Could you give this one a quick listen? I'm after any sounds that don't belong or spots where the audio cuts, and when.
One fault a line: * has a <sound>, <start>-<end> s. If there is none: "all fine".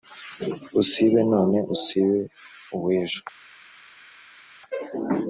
all fine